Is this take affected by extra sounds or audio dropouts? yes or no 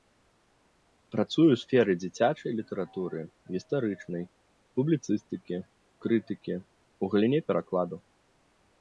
no